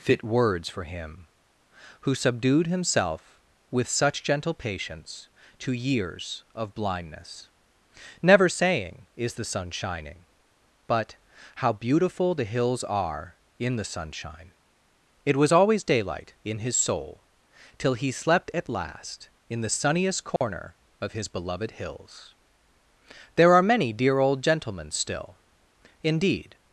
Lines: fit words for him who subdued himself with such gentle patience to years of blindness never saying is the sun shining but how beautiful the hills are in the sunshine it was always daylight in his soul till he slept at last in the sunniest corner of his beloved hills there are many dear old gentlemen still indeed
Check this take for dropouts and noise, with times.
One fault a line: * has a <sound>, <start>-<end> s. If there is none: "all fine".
* has a dropout, 20.4-20.4 s